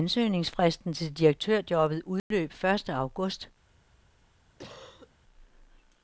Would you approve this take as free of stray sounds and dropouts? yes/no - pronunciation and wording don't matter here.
no